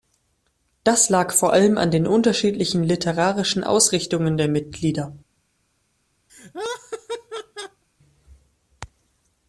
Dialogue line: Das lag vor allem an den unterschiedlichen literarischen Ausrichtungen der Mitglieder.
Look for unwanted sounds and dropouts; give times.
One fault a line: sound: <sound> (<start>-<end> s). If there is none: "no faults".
sound: laugh (6.3-7.8 s)